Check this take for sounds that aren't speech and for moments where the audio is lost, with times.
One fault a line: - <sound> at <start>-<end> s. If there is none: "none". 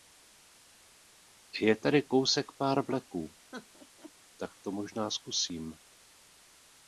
- laugh at 3.5-4.1 s